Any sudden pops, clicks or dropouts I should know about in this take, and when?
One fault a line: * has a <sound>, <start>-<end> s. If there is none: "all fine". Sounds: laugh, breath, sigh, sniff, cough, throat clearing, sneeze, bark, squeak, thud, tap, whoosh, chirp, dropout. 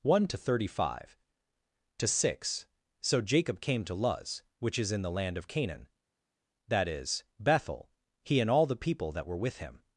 all fine